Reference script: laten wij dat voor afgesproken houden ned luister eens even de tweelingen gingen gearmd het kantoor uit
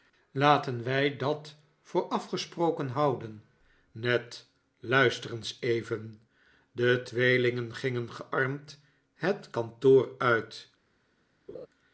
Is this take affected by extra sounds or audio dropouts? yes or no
yes